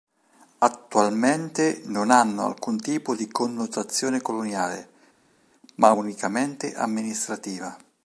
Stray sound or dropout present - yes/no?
no